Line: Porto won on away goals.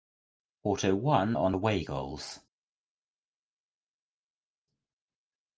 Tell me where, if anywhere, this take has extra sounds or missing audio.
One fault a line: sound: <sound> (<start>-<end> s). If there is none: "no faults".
no faults